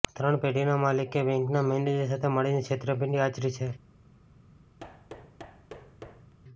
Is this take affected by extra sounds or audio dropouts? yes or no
yes